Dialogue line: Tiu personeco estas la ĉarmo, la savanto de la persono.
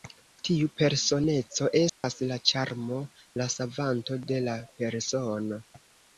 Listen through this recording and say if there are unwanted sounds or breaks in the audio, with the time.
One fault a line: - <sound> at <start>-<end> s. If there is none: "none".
- dropout at 1.9-2.0 s